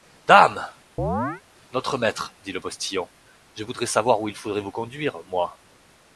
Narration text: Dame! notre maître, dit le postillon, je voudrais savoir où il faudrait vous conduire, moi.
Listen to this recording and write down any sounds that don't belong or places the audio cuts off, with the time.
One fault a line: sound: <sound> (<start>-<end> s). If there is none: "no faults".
sound: chirp (1.0-1.4 s)